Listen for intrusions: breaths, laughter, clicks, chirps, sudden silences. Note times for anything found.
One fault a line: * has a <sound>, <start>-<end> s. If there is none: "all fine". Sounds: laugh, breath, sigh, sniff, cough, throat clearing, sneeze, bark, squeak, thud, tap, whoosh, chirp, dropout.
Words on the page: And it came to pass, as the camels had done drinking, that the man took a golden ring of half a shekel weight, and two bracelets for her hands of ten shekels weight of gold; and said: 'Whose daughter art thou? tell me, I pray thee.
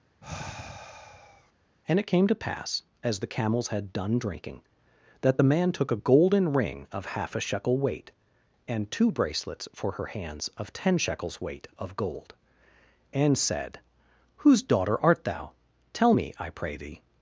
* has a sigh, 0.2-1.5 s